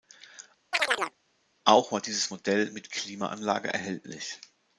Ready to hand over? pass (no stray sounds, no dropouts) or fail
fail